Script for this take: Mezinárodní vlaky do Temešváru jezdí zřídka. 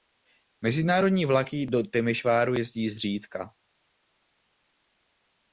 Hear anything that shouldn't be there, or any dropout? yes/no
no